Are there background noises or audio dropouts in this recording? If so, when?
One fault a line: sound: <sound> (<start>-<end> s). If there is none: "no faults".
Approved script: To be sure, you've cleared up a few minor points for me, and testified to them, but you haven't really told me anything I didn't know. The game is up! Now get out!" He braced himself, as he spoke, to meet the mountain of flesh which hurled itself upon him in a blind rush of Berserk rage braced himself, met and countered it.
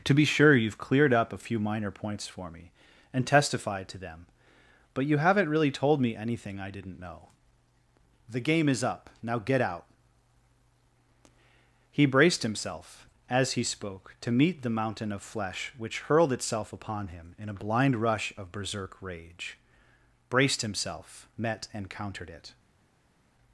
no faults